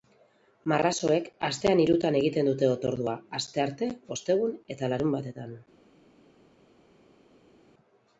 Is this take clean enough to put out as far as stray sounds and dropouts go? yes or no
yes